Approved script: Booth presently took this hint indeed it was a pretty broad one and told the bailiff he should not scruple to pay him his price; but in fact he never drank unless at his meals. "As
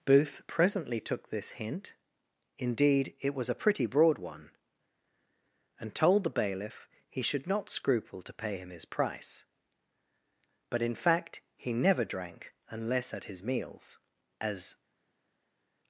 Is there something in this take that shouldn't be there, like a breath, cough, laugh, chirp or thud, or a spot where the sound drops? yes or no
no